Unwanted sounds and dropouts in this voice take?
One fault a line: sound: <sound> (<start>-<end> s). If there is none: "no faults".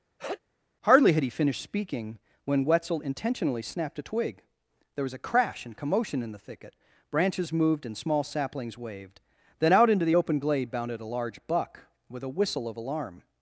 sound: sneeze (0.2-0.4 s)